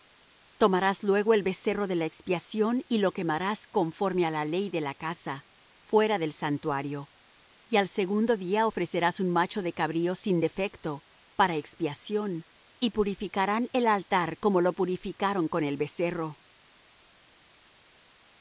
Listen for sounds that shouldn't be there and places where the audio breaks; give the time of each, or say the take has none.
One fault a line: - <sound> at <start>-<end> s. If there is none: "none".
none